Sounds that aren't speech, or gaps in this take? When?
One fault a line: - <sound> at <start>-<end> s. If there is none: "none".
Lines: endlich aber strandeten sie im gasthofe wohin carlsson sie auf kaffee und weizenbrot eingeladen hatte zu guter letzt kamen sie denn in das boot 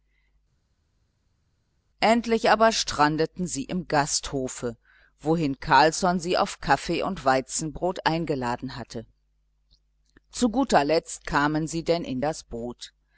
none